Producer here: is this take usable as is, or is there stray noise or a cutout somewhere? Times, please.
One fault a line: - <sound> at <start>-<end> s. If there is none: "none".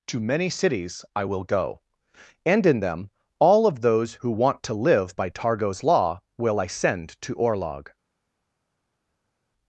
none